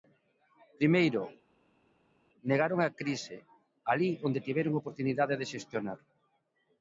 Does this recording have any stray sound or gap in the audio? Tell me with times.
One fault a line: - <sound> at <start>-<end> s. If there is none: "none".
none